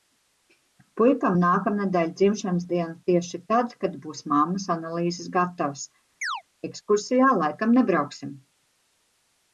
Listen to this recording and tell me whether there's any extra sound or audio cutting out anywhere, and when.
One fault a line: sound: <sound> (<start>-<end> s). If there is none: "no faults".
sound: chirp (6.2-6.4 s)